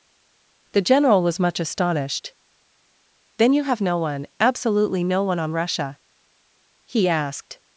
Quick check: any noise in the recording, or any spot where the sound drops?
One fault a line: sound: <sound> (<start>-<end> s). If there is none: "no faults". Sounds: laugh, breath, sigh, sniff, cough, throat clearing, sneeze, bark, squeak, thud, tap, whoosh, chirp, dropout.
no faults